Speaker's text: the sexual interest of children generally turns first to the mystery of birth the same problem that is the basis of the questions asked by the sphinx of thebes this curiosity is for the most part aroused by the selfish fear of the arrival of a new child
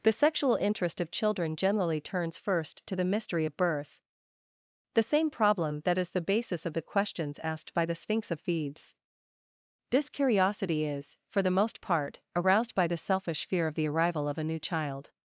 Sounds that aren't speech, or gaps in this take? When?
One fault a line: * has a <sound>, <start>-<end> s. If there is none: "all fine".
all fine